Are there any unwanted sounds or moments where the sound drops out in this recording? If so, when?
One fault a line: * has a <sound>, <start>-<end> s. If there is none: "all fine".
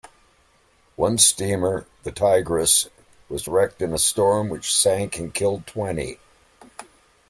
all fine